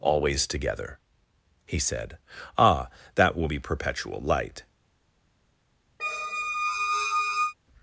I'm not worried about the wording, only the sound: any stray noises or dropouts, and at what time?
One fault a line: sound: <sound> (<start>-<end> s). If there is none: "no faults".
sound: squeak (6.0-7.5 s)